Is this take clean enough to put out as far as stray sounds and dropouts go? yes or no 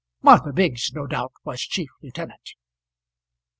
yes